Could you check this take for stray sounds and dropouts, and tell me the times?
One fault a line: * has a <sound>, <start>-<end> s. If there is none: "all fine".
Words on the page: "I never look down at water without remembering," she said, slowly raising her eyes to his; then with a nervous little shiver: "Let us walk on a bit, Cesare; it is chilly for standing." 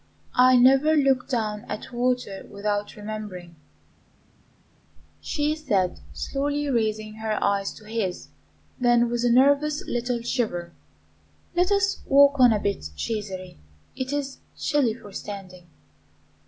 all fine